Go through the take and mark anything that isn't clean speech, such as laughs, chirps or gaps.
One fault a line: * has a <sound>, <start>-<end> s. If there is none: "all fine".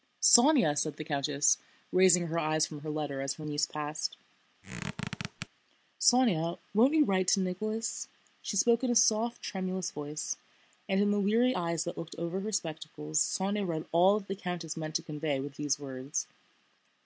* has a squeak, 4.6-5.5 s